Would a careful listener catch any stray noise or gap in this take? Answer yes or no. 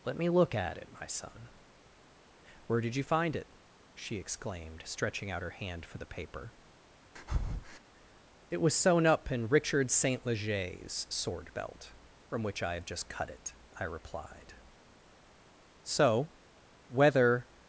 yes